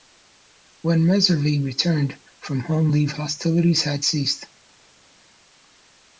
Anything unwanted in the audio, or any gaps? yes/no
no